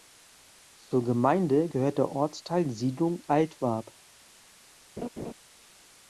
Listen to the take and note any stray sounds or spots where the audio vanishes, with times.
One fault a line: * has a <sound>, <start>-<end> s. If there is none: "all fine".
* has a laugh, 5.0-5.3 s